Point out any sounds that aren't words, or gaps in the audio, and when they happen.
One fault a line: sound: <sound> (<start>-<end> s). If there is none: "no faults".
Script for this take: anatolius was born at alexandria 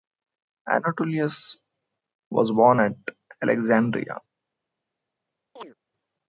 sound: chirp (5.6-5.7 s)